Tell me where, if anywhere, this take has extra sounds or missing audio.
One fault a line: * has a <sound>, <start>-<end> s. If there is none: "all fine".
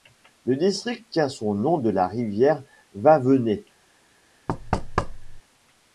* has a thud, 4.5-5.4 s